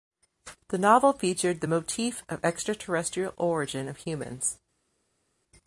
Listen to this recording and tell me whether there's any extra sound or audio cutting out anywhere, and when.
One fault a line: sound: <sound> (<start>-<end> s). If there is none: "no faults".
no faults